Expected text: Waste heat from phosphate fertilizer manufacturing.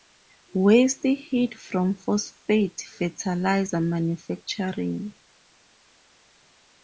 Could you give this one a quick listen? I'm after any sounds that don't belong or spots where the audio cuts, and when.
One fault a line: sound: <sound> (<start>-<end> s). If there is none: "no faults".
no faults